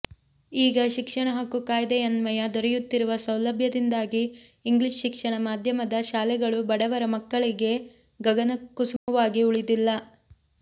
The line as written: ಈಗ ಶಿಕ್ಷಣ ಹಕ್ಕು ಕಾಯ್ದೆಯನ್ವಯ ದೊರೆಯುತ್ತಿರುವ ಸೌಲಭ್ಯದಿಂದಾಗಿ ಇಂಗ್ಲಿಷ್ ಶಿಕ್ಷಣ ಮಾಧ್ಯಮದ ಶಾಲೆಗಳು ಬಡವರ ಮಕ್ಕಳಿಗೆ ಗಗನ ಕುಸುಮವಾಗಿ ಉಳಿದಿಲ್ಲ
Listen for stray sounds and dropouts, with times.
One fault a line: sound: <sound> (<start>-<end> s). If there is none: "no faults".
sound: dropout (9.0-9.1 s)